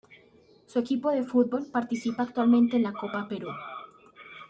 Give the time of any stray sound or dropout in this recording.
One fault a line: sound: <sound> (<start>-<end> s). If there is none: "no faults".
no faults